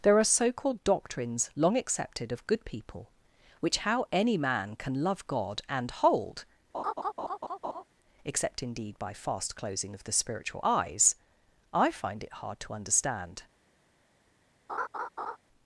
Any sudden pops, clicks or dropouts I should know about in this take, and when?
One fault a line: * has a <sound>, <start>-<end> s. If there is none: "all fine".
* has a laugh, 6.7-7.8 s
* has a laugh, 14.7-15.4 s